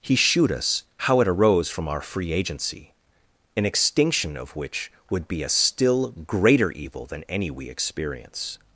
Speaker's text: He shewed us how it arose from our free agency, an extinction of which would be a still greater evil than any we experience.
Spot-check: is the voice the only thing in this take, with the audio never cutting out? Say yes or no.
yes